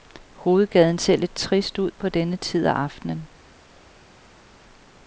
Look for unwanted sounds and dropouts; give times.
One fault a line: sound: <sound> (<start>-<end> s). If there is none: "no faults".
no faults